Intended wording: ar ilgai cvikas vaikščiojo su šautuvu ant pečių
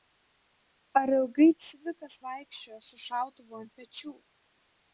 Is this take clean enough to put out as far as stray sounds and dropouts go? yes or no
yes